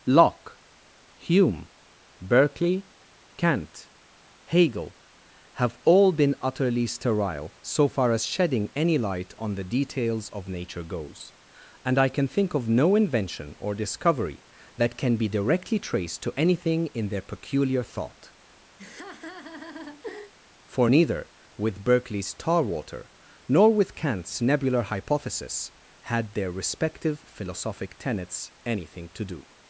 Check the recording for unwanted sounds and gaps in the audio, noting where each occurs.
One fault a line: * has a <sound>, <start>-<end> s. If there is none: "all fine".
* has a laugh, 18.8-20.3 s